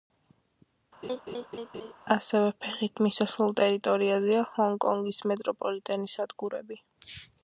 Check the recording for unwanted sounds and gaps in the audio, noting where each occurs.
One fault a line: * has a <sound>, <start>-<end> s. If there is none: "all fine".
* has a laugh, 1.0-1.9 s